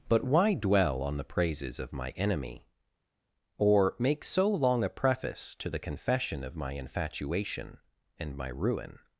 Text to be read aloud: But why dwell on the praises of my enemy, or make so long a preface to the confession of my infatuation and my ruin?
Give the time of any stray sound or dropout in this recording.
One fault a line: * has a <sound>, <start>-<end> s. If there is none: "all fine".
all fine